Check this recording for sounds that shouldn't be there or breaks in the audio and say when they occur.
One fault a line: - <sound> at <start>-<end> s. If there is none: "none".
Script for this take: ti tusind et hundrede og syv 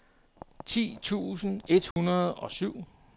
- dropout at 1.9-2.0 s